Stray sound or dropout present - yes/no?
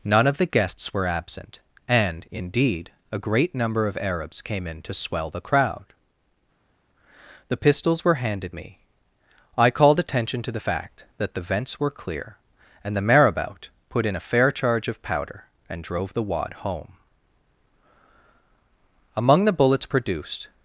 no